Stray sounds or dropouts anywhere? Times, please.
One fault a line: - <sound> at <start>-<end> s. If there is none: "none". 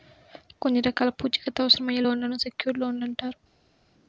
none